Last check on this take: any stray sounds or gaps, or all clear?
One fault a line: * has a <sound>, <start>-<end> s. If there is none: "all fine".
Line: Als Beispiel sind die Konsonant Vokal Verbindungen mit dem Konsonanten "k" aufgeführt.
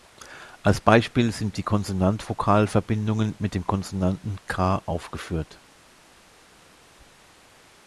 all fine